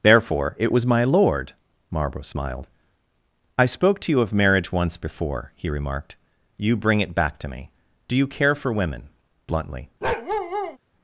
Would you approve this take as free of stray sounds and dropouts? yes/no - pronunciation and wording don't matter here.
no